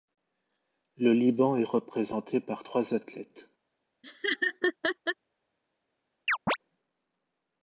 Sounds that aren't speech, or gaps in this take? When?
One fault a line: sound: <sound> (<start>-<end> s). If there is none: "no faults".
sound: laugh (4.0-5.2 s)
sound: chirp (6.3-6.6 s)